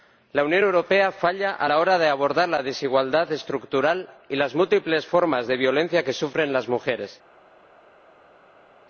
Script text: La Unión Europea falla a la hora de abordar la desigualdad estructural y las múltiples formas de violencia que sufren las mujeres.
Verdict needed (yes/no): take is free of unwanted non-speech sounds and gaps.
yes